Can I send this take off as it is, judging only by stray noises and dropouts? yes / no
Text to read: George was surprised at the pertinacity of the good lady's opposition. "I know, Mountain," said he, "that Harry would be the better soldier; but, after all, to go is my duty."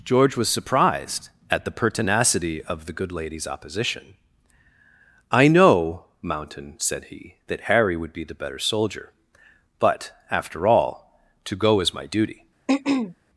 no